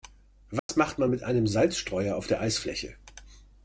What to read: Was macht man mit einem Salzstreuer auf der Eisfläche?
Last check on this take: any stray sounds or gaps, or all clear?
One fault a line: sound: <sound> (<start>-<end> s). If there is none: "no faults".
sound: dropout (0.6-0.7 s)